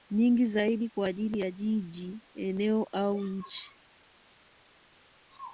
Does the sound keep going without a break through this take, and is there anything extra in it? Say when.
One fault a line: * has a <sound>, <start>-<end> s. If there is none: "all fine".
all fine